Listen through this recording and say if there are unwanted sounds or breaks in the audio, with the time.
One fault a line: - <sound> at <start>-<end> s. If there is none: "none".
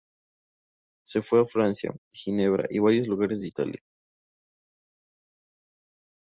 none